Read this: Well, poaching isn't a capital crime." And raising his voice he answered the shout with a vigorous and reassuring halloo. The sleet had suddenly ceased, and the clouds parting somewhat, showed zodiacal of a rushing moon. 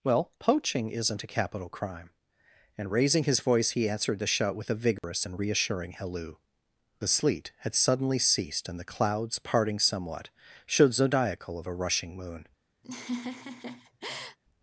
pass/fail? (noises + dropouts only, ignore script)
fail